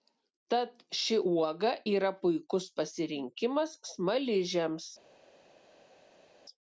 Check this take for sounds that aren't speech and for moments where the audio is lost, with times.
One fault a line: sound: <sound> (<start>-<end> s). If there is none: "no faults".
no faults